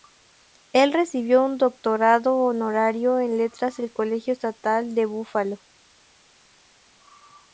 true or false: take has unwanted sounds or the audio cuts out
false